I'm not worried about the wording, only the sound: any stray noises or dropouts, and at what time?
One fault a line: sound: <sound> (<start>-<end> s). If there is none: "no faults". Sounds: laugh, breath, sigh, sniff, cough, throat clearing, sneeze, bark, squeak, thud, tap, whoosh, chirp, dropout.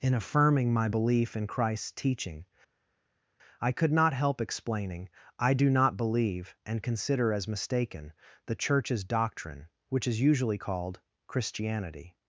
no faults